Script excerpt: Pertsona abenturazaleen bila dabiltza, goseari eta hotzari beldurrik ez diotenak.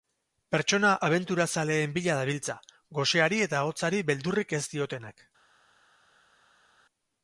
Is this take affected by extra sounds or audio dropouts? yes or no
no